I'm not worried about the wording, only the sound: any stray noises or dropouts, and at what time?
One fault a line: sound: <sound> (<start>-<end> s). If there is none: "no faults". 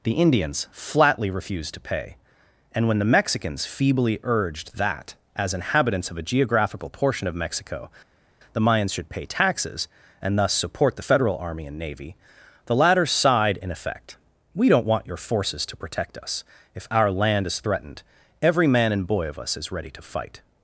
no faults